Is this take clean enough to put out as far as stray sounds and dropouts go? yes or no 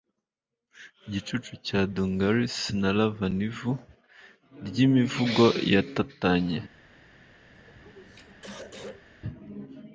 no